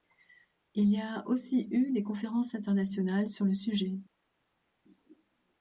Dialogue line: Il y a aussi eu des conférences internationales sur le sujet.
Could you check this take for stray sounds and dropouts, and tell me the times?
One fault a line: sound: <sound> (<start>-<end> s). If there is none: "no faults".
no faults